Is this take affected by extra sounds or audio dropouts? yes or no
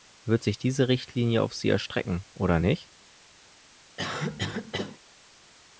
yes